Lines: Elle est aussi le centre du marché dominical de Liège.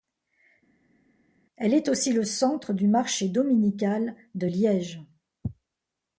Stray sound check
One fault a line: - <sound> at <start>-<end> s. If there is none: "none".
none